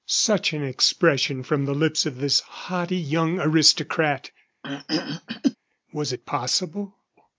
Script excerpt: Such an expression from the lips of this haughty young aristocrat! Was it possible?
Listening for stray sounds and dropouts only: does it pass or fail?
fail